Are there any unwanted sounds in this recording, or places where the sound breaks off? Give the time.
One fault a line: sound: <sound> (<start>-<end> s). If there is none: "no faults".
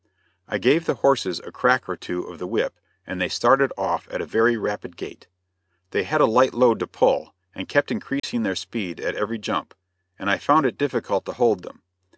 sound: dropout (8.2-8.2 s)